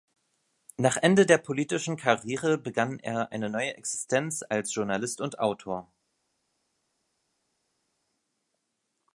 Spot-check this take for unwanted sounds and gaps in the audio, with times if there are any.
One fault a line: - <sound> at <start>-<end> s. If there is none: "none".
none